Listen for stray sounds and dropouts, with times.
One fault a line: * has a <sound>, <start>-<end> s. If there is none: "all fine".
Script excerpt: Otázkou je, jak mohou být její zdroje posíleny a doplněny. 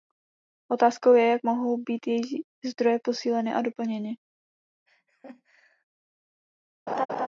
* has a laugh, 4.9-5.8 s
* has a laugh, 6.9-7.3 s